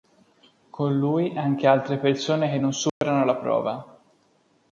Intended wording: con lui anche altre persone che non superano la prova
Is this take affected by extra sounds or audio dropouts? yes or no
yes